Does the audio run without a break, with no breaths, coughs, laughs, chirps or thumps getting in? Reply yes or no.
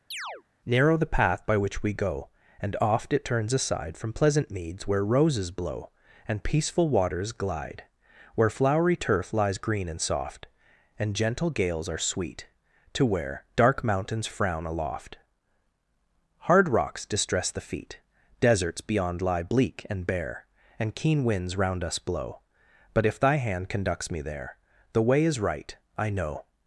no